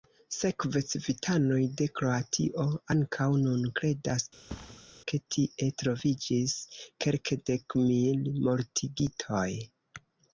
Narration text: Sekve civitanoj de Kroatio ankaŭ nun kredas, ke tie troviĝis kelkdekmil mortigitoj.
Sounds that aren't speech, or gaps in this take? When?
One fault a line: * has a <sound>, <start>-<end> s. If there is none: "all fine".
* has a thud, 4.5-4.9 s